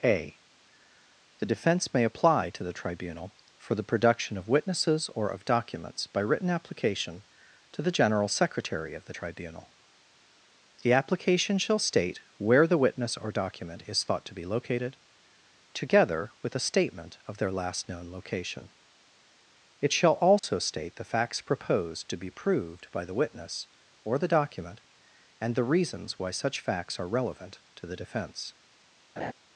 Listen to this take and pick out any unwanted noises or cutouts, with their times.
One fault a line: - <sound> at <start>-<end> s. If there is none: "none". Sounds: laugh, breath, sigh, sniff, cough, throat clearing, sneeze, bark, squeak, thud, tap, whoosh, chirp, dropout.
- dropout at 20.4-20.4 s
- laugh at 29.2-29.3 s